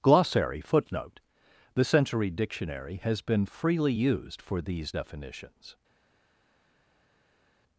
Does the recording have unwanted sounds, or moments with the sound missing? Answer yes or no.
no